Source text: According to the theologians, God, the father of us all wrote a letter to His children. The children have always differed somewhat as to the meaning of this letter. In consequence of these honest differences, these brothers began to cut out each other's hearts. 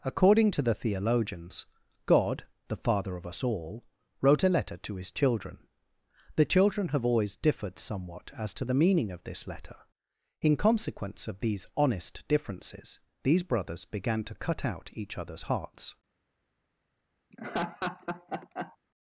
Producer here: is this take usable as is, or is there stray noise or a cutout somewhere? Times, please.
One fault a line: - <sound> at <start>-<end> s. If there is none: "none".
- laugh at 17.3-18.8 s